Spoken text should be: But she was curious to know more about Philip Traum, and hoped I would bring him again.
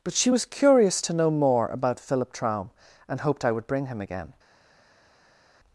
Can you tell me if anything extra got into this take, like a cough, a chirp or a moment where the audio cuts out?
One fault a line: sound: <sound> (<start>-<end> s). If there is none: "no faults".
no faults